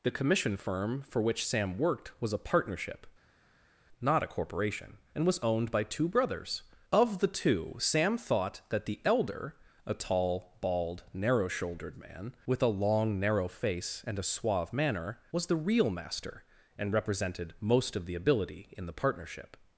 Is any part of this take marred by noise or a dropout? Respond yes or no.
no